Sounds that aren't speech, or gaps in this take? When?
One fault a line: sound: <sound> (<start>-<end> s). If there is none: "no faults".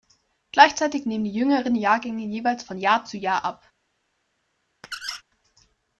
sound: squeak (4.8-5.2 s)